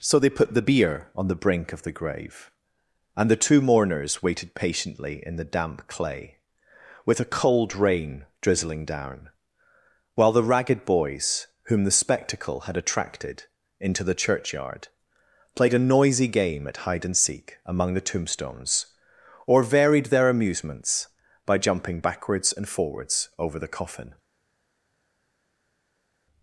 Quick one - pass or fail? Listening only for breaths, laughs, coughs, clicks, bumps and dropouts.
pass